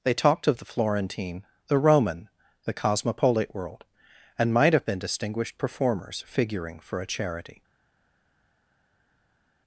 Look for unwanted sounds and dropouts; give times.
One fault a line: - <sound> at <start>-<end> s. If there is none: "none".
none